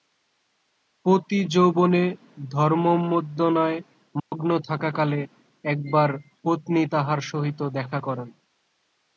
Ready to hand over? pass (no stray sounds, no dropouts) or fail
fail